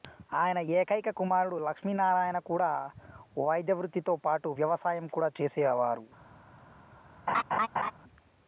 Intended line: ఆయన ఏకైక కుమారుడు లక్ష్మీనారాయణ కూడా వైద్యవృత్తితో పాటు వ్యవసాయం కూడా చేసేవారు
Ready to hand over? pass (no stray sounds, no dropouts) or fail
fail